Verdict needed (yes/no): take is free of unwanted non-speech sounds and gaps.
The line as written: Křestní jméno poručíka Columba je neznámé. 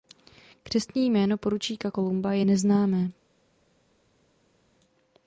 yes